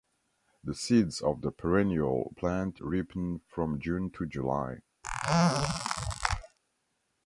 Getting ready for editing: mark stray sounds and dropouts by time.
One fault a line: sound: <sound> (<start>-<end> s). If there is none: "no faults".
sound: squeak (5.0-6.6 s)